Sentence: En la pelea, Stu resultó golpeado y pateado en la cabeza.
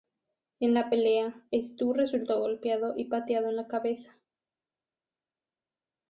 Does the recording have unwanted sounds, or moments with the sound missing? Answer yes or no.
no